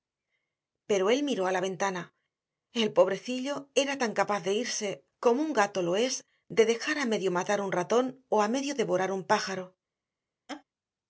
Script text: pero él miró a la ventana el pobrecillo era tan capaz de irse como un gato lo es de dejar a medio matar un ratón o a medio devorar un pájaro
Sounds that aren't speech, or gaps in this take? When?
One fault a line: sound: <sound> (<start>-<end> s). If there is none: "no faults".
sound: laugh (10.5-10.6 s)